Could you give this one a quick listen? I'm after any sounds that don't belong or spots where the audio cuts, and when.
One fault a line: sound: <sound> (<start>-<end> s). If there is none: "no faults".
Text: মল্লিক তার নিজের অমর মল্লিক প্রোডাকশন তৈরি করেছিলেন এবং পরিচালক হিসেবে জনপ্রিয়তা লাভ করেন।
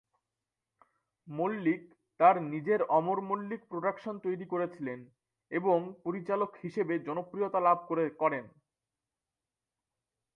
no faults